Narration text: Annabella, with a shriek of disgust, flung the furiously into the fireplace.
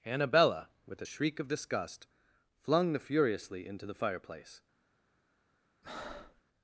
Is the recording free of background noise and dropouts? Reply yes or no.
no